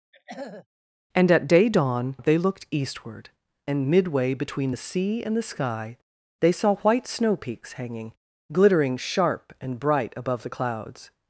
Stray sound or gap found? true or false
true